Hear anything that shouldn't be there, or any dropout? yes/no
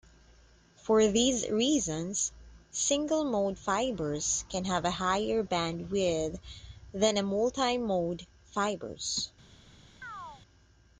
yes